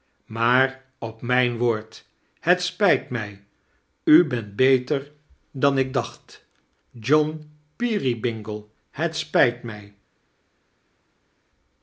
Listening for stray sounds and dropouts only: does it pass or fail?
pass